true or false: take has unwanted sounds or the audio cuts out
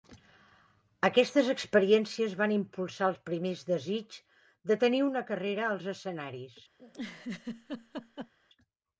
true